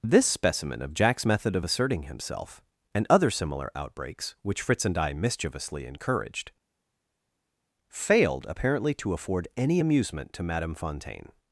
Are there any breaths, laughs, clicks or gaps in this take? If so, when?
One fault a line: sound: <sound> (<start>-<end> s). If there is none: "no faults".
no faults